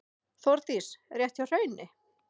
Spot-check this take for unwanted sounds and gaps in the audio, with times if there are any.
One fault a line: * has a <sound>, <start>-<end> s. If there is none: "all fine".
all fine